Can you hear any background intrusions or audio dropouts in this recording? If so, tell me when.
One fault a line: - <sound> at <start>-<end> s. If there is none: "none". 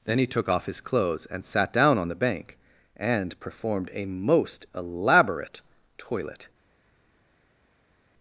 none